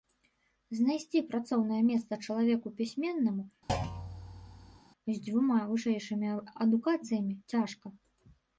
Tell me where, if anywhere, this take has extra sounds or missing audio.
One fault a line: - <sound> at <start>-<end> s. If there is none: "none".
- thud at 3.7-4.8 s